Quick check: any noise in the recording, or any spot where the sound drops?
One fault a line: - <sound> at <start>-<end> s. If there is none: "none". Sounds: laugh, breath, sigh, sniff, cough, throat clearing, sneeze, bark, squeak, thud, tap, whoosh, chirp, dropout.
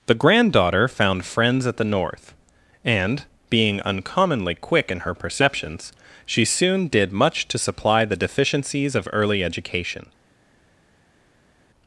none